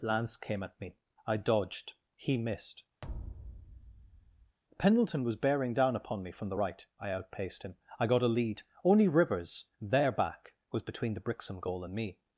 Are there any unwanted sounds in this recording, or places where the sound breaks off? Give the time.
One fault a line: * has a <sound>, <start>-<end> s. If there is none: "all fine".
* has a thud, 3.0-4.6 s